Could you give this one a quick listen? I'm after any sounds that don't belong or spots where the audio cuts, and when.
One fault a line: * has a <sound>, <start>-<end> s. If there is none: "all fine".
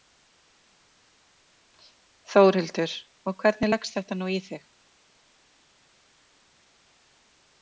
all fine